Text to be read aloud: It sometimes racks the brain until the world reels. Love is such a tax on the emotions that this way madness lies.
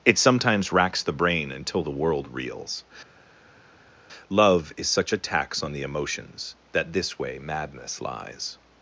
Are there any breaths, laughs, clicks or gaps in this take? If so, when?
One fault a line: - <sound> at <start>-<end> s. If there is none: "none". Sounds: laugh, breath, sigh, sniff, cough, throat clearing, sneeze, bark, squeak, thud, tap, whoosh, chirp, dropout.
none